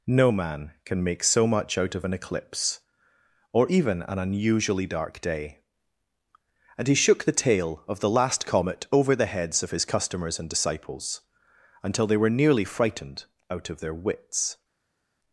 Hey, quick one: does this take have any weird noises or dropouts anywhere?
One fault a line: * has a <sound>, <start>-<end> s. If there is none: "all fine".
all fine